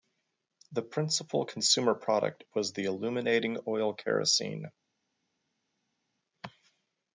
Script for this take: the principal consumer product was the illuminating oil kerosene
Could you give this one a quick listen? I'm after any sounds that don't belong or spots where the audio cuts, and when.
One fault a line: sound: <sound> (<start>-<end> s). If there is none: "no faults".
no faults